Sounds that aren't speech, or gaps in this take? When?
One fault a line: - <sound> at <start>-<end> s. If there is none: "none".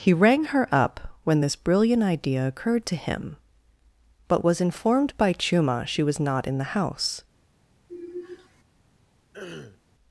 - sigh at 7.9-8.6 s
- throat clearing at 9.3-9.8 s